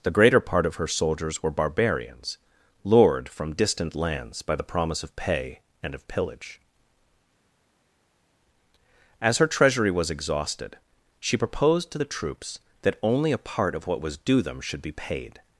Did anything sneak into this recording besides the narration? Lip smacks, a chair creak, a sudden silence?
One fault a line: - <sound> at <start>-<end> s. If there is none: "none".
none